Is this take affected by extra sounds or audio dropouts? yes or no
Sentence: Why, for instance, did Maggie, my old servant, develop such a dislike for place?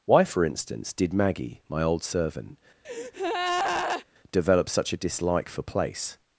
yes